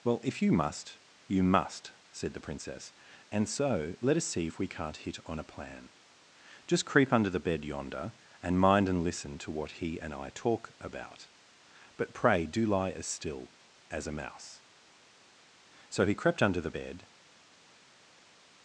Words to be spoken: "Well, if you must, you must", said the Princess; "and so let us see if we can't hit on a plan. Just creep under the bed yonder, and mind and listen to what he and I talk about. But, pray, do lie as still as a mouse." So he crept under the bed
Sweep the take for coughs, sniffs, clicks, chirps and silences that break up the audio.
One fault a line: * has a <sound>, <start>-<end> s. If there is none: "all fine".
all fine